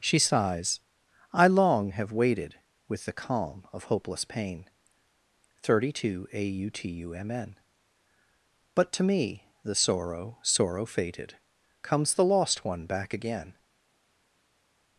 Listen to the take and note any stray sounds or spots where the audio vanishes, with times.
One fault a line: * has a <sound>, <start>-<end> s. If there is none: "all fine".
all fine